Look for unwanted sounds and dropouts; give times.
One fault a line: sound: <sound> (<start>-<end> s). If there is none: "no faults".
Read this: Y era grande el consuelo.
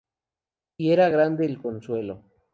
no faults